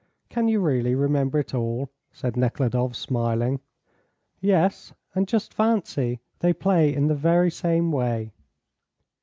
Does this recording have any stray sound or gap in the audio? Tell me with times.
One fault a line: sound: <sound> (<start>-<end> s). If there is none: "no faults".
no faults